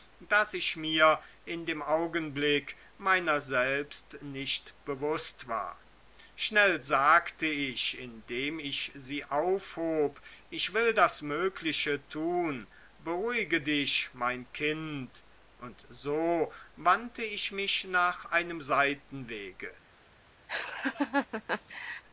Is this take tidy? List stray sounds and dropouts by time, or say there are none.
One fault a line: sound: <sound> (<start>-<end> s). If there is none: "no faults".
sound: laugh (20.5-22.0 s)